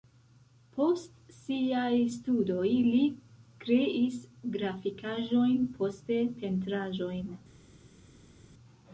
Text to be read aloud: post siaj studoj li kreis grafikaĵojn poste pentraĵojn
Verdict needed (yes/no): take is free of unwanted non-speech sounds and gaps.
yes